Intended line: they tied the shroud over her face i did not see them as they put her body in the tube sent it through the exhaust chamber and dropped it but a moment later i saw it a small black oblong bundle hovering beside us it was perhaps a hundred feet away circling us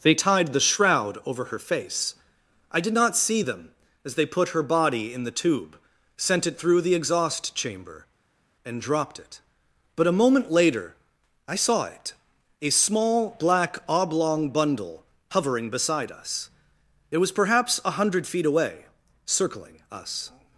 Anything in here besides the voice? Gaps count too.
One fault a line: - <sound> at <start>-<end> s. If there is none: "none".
none